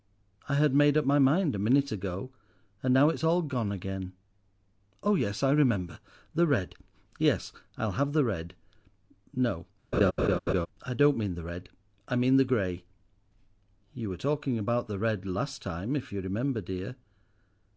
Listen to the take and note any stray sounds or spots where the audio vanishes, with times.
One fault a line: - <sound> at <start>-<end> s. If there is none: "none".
- laugh at 9.9-10.7 s